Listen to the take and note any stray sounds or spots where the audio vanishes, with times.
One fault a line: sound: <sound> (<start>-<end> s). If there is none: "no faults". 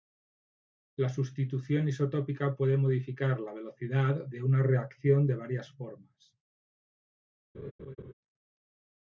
sound: laugh (7.5-8.1 s)